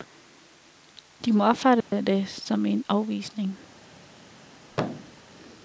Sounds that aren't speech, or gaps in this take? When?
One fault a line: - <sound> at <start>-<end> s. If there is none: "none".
- dropout at 1.8-1.9 s
- thud at 4.7-5.2 s